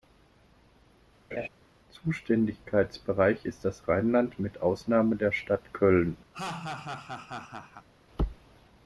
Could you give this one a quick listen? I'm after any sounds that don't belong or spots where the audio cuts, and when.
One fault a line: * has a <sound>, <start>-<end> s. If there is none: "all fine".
* has a laugh, 1.3-1.5 s
* has a laugh, 6.3-7.9 s